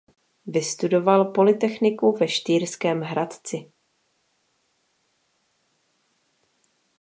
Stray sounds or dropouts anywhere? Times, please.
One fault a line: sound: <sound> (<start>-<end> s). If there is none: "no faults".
no faults